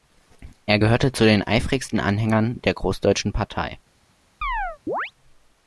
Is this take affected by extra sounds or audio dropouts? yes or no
yes